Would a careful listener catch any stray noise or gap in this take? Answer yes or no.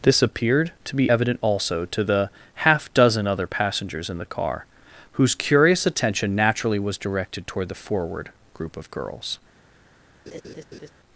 yes